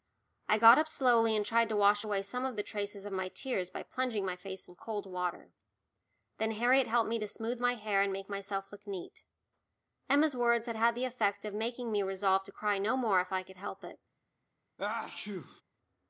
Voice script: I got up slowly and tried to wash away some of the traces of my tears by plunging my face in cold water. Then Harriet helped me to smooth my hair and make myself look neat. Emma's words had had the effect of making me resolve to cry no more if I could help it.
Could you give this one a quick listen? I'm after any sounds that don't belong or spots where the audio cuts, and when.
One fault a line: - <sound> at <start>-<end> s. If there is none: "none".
- sneeze at 14.8-15.6 s